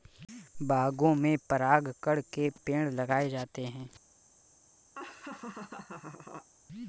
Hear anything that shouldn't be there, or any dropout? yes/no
yes